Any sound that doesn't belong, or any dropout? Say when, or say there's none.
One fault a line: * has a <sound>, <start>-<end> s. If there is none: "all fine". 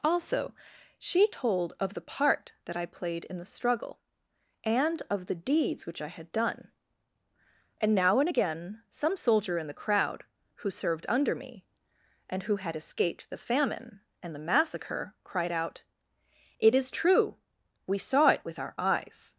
all fine